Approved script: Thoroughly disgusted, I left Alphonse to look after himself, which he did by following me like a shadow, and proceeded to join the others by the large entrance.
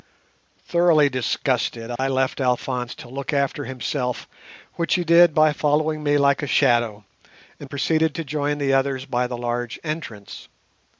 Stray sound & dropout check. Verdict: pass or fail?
fail